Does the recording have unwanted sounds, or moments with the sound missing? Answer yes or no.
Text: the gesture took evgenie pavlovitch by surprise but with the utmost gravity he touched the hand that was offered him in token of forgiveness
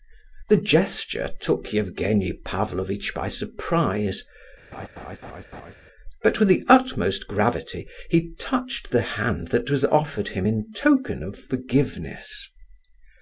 yes